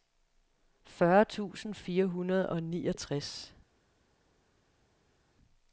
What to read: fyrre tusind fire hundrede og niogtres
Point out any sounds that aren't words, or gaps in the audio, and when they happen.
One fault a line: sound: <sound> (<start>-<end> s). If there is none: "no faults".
no faults